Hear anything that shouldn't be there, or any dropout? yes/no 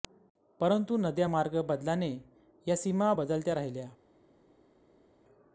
no